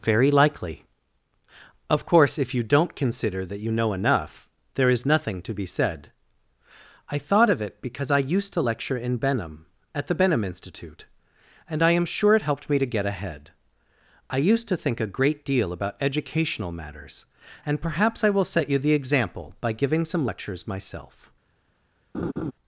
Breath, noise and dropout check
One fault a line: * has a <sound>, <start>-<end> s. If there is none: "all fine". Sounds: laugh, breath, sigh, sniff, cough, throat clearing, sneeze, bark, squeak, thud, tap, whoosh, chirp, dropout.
* has a laugh, 22.1-22.5 s